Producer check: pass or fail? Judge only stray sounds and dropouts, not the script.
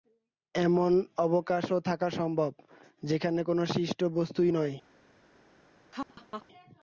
fail